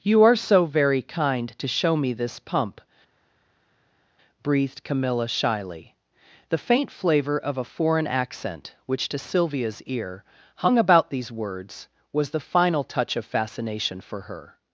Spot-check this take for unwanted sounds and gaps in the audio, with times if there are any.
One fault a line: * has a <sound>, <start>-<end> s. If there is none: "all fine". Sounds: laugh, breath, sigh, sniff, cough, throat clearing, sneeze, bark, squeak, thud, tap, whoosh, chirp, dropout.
all fine